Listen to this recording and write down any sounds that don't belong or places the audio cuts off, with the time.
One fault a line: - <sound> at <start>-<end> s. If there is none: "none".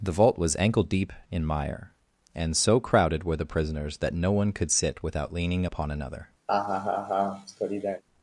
- laugh at 6.5-8.0 s